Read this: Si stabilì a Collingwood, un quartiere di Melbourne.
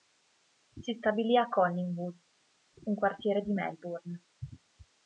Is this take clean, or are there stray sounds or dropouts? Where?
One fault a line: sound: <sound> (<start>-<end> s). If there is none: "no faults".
no faults